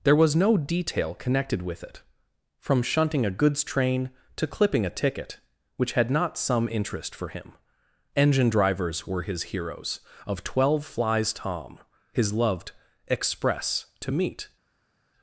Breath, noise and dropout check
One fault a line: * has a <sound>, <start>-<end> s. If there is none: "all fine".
all fine